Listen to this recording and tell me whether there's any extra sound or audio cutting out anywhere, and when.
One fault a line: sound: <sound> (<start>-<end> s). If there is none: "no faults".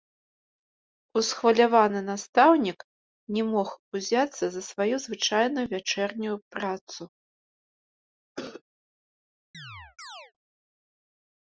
sound: cough (8.4-8.6 s)
sound: chirp (9.5-10.3 s)